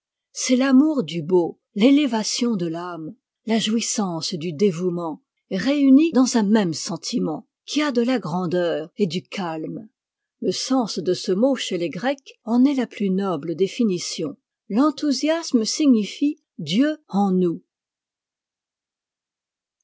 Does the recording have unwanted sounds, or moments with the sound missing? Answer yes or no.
no